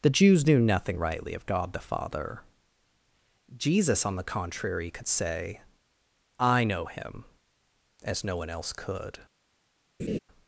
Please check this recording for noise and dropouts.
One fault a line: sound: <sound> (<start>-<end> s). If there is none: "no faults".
sound: laugh (10.0-10.2 s)